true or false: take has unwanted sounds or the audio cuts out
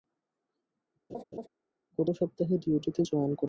true